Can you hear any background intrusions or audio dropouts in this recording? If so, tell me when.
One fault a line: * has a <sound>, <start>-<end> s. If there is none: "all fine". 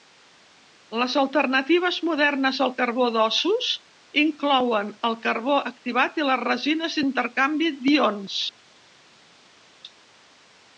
all fine